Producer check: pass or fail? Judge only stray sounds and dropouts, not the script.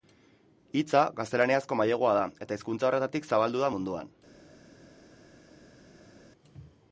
pass